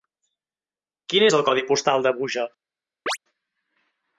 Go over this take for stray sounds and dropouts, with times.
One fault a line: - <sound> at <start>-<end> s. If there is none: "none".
- chirp at 3.1-3.2 s